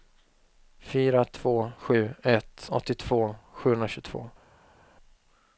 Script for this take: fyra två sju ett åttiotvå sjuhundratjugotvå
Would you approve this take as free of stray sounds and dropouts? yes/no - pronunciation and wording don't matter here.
yes